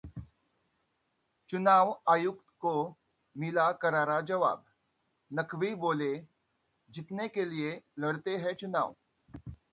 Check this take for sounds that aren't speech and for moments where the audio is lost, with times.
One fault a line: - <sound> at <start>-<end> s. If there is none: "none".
none